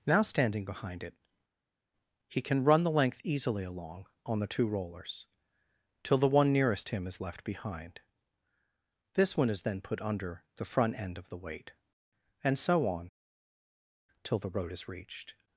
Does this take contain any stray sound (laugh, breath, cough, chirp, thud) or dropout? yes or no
no